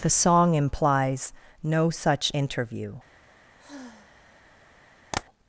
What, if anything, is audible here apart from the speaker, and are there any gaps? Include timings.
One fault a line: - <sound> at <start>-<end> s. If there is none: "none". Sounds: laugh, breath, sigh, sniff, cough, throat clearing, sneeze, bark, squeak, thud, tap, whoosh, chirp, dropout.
- sigh at 3.6-4.5 s
- tap at 5.1-5.2 s